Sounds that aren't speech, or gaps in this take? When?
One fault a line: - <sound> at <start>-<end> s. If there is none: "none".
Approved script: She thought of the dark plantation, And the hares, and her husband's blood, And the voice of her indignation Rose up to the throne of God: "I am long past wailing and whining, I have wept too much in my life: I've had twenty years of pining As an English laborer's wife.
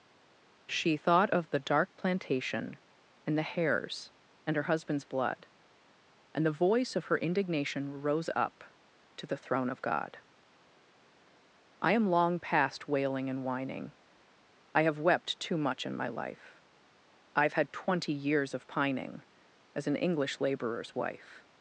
none